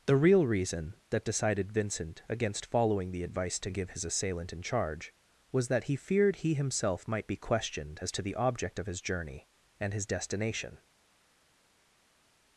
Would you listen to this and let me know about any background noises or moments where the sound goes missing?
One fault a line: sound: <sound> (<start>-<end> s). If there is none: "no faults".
no faults